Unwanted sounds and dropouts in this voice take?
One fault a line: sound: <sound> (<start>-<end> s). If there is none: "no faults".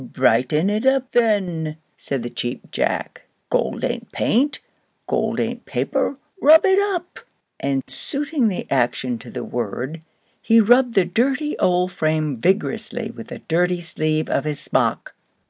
no faults